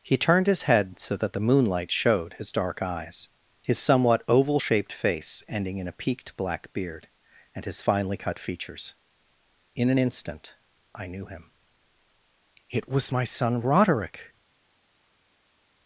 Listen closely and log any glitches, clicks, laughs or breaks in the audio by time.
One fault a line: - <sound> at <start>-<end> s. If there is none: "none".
none